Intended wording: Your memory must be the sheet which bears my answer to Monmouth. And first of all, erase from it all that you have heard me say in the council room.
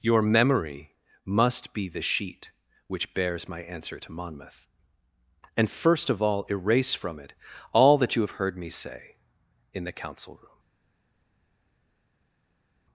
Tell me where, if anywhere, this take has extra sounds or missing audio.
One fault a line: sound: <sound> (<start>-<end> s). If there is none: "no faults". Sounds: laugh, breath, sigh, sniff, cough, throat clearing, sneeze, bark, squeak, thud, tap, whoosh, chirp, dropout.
no faults